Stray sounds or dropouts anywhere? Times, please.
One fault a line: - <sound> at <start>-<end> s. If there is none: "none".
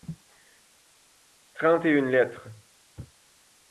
none